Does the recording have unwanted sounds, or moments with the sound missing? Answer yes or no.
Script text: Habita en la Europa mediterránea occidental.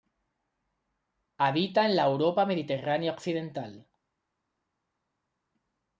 no